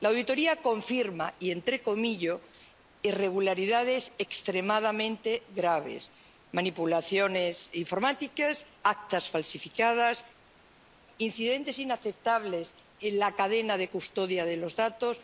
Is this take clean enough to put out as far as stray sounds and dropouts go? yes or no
yes